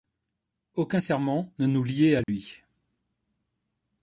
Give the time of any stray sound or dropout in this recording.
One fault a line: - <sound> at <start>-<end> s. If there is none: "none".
- dropout at 2.2-2.3 s